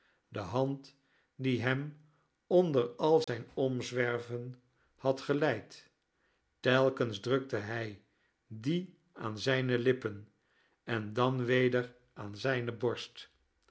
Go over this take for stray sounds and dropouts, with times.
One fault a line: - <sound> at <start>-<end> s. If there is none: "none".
- dropout at 3.2-3.3 s